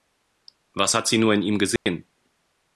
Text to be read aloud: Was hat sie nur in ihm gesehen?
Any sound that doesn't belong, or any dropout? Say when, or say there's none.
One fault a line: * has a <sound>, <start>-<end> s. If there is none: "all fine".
* has a dropout, 1.8-1.9 s